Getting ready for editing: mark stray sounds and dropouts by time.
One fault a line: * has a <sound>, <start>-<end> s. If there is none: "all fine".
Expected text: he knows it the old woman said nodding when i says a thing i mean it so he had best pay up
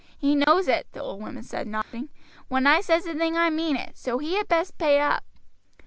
* has a dropout, 0.4-0.5 s
* has a dropout, 1.8-1.9 s